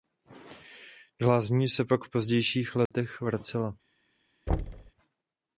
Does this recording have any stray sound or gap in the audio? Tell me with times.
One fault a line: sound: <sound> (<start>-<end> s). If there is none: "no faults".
sound: dropout (2.9-2.9 s)
sound: thud (4.5-4.9 s)